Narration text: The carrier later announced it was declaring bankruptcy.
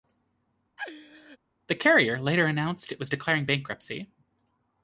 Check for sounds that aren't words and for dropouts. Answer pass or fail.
fail